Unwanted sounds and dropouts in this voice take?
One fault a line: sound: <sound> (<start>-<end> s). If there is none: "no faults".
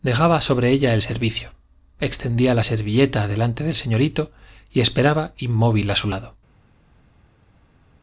no faults